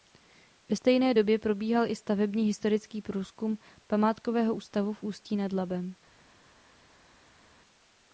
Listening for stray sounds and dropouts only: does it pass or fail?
pass